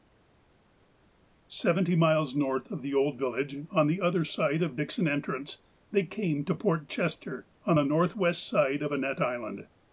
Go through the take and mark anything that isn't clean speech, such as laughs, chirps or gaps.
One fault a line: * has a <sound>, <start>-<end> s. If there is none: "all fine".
all fine